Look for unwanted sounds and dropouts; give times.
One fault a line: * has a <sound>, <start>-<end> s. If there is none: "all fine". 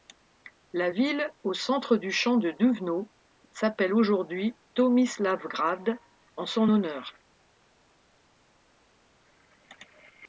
all fine